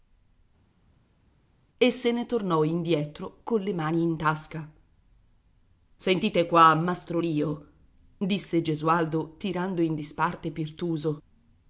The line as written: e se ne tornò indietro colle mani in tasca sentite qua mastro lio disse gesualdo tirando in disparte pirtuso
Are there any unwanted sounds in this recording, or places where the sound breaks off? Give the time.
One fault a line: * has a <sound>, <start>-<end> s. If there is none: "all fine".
all fine